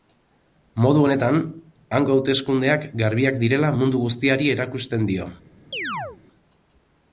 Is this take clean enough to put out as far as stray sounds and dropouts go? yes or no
no